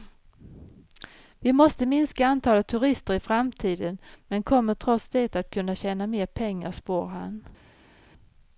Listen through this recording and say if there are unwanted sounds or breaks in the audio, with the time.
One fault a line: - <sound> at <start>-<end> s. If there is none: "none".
none